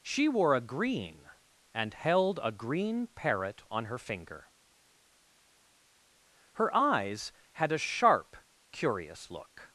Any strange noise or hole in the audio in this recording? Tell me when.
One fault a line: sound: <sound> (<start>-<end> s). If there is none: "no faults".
no faults